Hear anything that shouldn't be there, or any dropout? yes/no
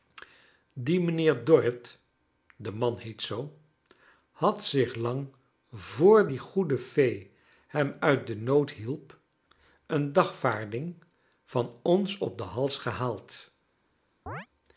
yes